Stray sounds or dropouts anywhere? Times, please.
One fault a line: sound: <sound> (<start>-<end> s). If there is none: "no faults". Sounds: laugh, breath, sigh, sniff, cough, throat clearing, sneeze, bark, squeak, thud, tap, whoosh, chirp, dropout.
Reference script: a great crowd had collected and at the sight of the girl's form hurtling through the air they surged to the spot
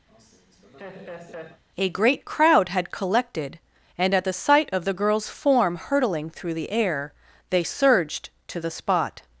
sound: laugh (0.1-1.6 s)